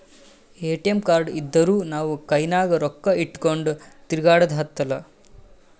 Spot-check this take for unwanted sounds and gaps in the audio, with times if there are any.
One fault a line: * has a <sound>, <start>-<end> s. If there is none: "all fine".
all fine